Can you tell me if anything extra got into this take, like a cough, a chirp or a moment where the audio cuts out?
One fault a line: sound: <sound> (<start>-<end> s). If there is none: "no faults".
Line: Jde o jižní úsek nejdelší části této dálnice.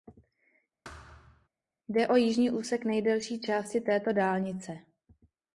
sound: thud (0.8-1.5 s)